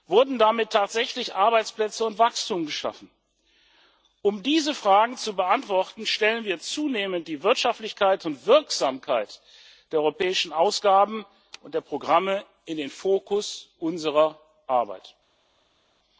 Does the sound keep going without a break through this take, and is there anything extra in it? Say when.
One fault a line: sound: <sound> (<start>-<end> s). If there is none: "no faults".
no faults